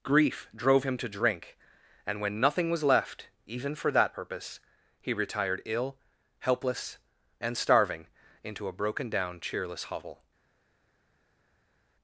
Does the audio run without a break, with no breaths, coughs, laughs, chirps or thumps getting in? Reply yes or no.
yes